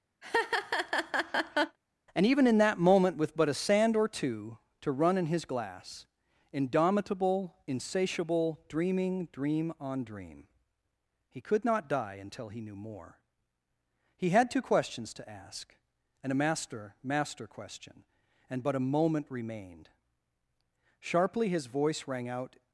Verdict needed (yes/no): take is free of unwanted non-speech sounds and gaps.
no